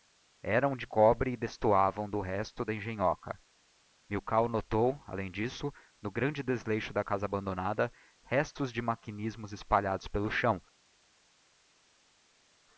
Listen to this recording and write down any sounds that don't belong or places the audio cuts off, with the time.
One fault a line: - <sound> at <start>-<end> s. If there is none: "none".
none